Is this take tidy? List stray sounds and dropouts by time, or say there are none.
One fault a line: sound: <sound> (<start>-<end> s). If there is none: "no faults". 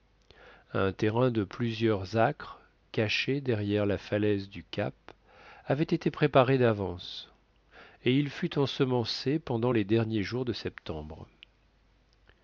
no faults